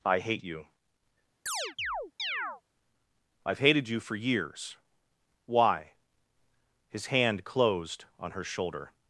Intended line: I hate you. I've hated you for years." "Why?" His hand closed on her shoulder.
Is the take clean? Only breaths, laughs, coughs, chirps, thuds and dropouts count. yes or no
no